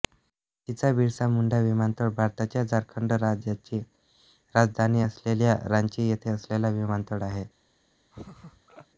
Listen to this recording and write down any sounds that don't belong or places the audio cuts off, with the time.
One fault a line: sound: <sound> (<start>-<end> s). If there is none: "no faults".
sound: laugh (8.1-8.9 s)